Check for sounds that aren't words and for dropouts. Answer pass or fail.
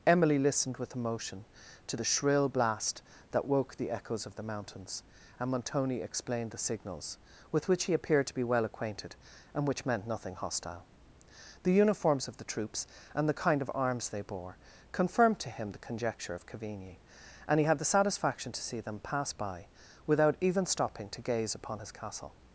pass